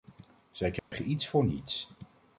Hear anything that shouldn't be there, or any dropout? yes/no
yes